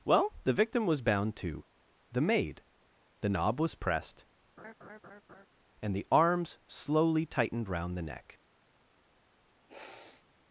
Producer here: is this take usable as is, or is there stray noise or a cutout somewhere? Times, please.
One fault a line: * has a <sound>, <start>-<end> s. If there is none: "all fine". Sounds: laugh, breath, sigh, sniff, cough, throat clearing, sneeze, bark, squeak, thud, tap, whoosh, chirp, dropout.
* has a laugh, 4.6-5.5 s
* has a sniff, 9.7-10.3 s